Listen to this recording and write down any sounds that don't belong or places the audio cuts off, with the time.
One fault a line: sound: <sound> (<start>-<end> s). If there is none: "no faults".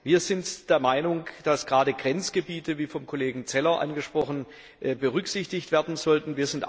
no faults